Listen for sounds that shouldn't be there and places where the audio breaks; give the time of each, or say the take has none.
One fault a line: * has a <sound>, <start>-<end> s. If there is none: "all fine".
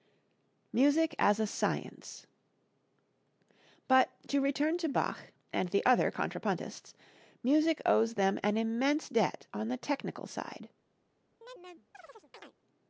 * has a chirp, 11.4-12.6 s